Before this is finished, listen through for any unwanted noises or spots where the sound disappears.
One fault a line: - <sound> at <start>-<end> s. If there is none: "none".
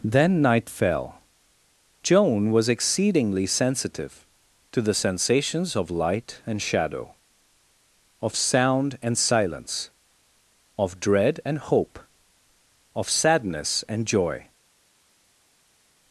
none